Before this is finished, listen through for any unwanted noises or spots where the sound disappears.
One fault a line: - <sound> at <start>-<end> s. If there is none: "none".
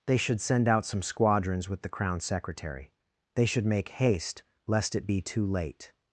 none